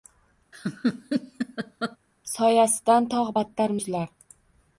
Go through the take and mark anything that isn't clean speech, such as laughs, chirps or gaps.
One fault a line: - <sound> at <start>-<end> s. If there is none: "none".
- laugh at 0.5-2.0 s